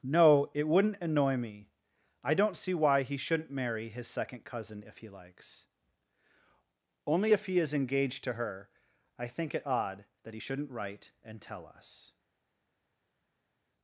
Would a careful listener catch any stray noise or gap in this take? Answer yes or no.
no